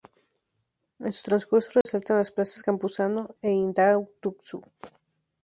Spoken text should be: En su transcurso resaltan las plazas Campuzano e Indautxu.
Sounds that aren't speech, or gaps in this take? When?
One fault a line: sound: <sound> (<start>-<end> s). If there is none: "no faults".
sound: dropout (1.8-1.9 s)